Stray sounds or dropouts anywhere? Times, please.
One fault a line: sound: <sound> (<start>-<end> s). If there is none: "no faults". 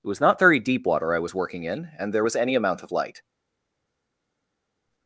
no faults